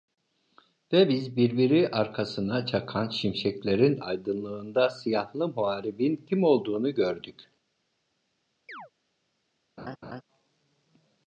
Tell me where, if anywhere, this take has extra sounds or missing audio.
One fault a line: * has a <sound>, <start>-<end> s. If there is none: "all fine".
* has a chirp, 8.7-8.9 s
* has a laugh, 9.8-10.2 s